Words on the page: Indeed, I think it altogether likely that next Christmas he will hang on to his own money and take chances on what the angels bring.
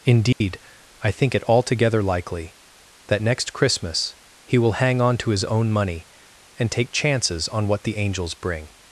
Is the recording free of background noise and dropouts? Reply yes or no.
no